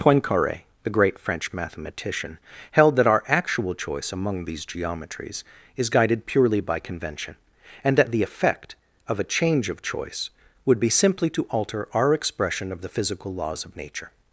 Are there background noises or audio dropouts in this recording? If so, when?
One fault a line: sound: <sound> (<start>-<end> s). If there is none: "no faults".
no faults